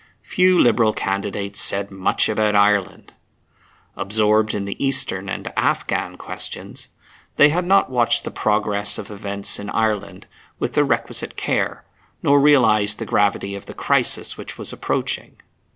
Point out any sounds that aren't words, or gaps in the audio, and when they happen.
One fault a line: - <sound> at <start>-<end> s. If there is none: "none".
none